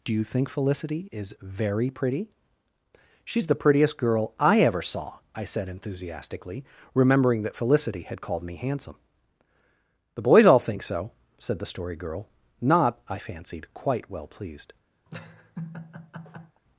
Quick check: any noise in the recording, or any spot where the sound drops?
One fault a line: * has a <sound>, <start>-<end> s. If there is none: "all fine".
* has a laugh, 15.1-16.6 s